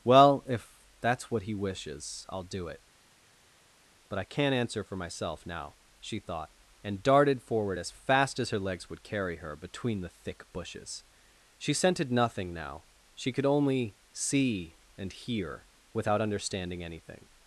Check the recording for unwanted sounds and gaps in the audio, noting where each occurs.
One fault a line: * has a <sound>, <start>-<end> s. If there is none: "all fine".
all fine